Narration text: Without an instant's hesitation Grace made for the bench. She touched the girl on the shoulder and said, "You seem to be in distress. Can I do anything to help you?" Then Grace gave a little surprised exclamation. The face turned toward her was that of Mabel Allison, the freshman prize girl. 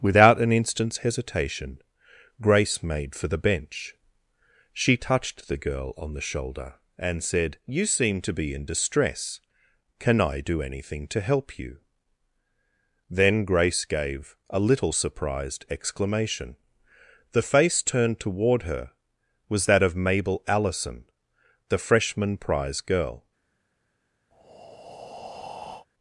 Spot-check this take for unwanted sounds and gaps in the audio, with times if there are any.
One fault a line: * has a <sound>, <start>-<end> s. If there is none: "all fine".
* has a breath, 24.3-25.9 s